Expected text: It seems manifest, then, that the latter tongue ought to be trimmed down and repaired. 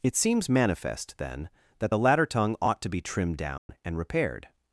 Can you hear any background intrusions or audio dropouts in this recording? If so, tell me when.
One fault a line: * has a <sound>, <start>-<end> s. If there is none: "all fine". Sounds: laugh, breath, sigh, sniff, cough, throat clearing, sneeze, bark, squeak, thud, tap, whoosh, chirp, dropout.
* has a dropout, 3.6-3.7 s